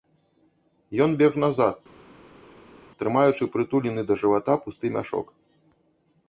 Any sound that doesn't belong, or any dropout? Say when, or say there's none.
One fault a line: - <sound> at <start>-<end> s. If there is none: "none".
none